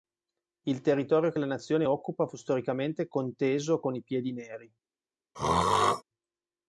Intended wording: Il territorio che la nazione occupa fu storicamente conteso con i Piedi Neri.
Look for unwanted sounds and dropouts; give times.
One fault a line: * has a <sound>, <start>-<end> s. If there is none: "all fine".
* has a throat clearing, 5.3-6.0 s